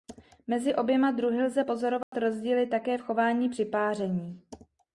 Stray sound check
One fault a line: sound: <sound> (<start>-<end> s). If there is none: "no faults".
sound: dropout (2.0-2.1 s)